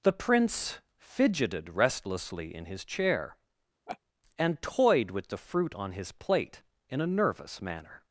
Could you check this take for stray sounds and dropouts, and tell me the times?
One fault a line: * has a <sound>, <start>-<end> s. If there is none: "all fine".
* has a laugh, 3.9-4.0 s